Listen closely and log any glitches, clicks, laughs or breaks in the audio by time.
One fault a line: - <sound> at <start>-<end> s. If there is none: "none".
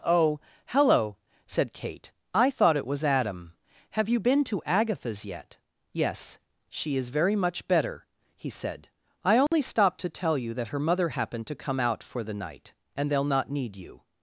- dropout at 9.5-9.5 s